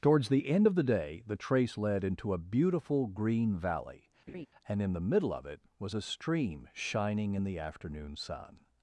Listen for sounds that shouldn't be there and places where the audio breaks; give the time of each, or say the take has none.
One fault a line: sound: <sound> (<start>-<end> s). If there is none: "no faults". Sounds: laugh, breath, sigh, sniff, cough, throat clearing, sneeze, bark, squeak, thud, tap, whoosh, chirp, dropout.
sound: laugh (4.3-4.5 s)